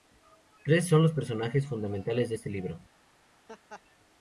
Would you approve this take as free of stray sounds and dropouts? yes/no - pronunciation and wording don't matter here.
no